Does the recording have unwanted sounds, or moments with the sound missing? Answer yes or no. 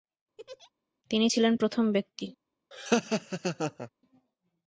yes